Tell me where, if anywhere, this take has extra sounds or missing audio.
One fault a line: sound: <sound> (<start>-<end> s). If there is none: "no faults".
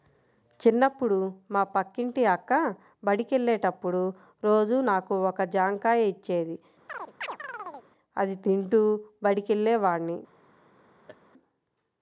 sound: chirp (6.9-7.9 s)
sound: laugh (11.1-11.2 s)